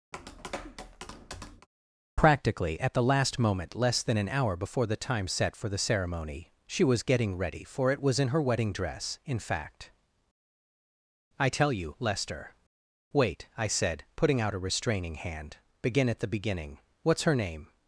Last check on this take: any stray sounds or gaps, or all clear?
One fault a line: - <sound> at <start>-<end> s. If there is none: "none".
- tap at 0.1-1.7 s